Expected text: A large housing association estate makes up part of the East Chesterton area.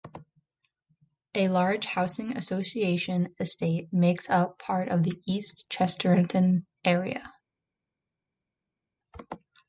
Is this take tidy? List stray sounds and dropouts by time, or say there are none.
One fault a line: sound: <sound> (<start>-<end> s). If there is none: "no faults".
no faults